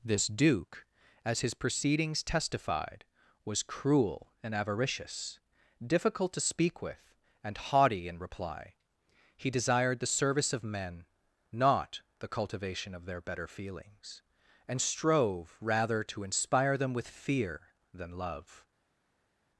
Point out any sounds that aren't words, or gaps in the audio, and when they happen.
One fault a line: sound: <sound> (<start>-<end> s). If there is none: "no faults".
no faults